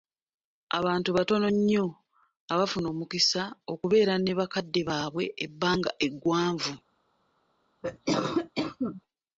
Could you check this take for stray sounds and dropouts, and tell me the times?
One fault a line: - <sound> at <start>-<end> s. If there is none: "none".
- cough at 7.8-9.0 s